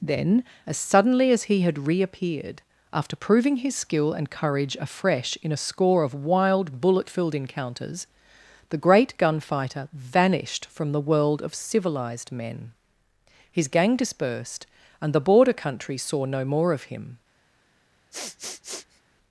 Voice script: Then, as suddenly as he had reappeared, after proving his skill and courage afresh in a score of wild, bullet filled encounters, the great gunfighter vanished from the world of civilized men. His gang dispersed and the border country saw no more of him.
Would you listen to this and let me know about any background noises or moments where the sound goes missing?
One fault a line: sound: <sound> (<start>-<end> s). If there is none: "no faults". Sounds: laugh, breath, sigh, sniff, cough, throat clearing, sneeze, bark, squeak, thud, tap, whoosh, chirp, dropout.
sound: sniff (18.1-19.0 s)